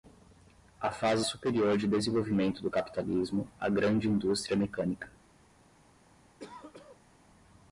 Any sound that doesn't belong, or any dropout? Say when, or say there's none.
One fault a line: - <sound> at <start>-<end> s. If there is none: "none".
- throat clearing at 6.4-7.1 s